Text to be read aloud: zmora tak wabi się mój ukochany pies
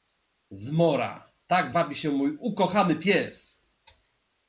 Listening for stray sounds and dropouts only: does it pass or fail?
pass